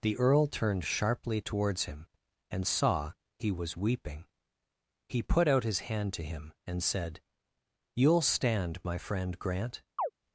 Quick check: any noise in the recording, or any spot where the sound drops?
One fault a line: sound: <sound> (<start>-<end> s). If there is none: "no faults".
sound: chirp (10.0-10.1 s)